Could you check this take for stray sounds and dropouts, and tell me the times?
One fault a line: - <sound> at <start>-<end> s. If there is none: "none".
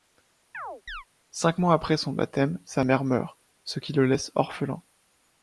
- chirp at 0.5-1.0 s